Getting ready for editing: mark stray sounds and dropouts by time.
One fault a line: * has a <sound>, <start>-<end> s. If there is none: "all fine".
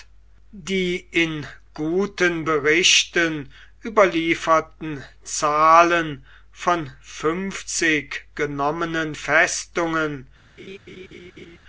* has a laugh, 10.6-11.6 s